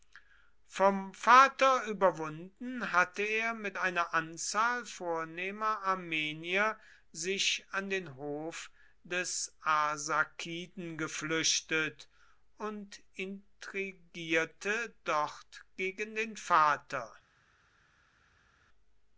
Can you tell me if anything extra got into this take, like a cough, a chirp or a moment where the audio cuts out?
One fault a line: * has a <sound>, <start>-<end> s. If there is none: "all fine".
all fine